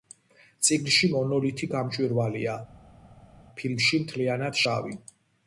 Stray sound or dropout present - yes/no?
no